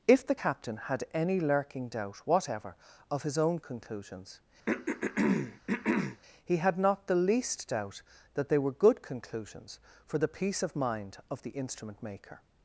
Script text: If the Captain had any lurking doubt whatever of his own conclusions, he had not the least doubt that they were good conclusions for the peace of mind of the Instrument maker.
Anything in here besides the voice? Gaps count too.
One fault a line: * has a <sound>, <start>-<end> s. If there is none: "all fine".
* has a throat clearing, 4.7-6.2 s